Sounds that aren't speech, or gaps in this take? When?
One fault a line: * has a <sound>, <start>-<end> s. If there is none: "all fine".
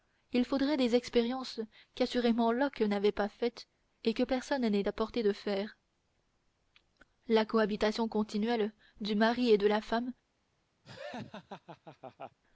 * has a laugh, 10.8-12.4 s